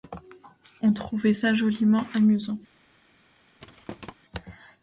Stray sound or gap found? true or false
true